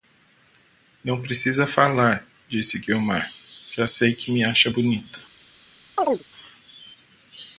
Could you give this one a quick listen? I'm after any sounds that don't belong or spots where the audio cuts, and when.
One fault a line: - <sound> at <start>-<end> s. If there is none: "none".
- chirp at 6.0-6.2 s